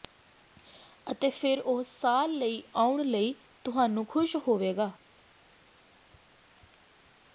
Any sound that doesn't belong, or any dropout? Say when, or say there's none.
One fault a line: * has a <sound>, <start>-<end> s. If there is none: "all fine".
all fine